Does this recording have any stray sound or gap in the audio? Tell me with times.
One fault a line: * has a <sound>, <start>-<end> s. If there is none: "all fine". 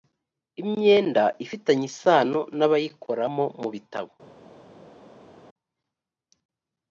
all fine